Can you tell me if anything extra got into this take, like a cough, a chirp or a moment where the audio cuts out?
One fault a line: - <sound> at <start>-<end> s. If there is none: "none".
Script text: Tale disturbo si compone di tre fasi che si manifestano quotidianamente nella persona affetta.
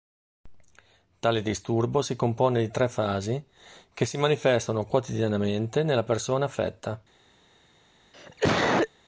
- cough at 8.1-8.9 s